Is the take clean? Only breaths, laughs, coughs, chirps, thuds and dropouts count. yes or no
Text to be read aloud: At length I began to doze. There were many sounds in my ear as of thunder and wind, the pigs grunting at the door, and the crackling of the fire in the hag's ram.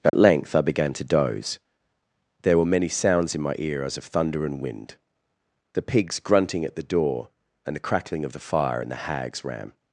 no